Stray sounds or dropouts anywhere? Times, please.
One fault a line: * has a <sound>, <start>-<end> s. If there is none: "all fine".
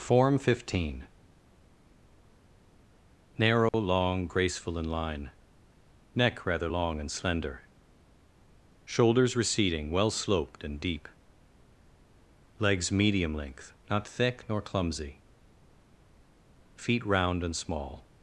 * has a dropout, 3.7-3.7 s